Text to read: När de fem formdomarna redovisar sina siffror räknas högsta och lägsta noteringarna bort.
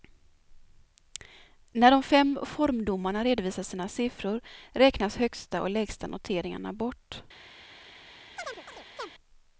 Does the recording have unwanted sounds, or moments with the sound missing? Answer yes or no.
yes